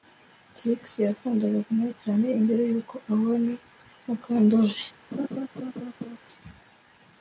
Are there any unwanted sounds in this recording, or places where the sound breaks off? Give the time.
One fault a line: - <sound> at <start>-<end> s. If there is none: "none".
- laugh at 5.1-6.2 s